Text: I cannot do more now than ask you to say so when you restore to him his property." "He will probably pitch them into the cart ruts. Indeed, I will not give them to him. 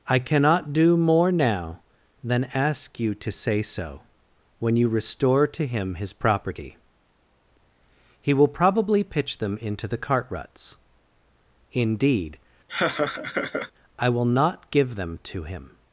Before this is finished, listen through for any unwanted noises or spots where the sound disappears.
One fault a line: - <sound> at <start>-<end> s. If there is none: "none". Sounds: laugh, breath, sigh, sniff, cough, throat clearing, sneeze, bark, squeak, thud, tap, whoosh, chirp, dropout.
- laugh at 12.7-13.7 s